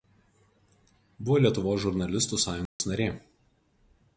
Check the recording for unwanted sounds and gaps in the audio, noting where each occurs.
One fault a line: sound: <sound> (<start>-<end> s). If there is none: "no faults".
sound: dropout (2.7-2.8 s)